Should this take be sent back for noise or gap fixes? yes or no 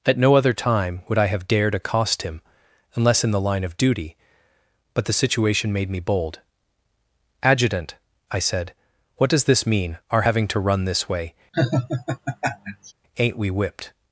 yes